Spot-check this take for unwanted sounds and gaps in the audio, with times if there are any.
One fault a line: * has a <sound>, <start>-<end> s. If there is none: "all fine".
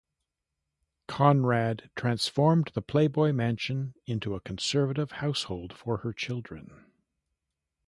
all fine